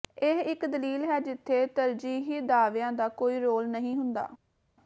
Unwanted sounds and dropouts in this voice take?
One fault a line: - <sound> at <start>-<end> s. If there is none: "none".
none